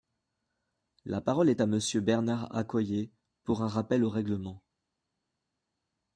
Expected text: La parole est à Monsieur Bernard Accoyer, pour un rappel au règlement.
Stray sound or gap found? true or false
false